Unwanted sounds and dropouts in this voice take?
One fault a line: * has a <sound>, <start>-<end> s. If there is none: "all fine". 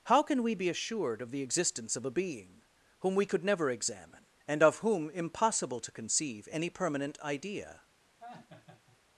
* has a laugh, 8.2-9.0 s